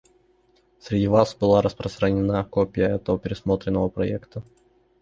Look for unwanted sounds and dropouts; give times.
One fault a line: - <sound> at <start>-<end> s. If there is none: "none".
none